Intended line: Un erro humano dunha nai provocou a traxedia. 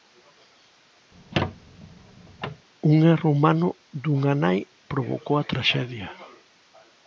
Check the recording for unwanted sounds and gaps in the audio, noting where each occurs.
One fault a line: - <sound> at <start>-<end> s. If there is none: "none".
- squeak at 1.1-2.7 s